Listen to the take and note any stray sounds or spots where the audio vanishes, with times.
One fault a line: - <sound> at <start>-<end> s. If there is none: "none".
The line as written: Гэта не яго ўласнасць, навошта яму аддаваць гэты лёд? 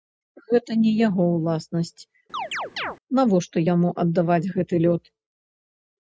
- chirp at 2.3-3.0 s